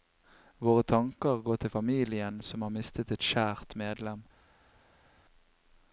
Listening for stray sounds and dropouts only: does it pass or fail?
pass